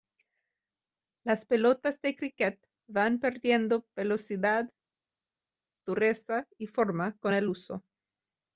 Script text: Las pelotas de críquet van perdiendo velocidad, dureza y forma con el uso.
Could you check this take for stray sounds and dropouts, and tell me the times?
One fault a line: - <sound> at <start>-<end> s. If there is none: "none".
none